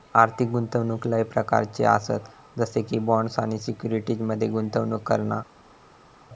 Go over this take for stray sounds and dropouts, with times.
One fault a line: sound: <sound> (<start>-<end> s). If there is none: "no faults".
no faults